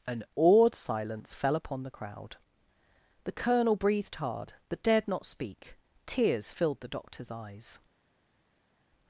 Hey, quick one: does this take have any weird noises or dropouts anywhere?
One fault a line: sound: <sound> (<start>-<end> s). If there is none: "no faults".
no faults